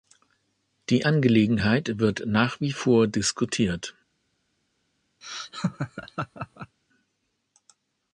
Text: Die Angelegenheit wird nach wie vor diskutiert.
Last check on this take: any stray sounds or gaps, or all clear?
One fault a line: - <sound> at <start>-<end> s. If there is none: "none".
- laugh at 5.2-6.8 s